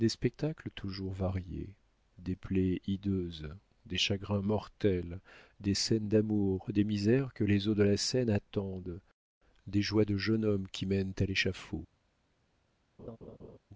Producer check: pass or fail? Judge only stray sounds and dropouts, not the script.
fail